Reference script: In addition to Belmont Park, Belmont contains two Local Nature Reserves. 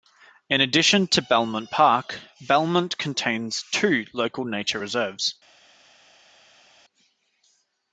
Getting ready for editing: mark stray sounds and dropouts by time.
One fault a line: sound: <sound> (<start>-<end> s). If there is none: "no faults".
no faults